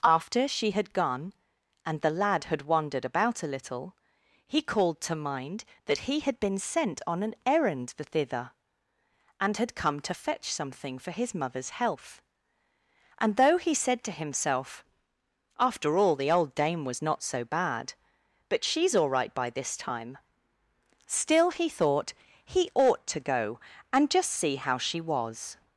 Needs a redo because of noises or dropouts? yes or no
no